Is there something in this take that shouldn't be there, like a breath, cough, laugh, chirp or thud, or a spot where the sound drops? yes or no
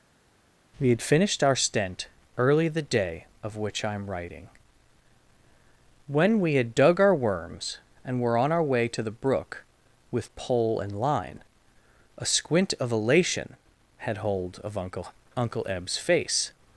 no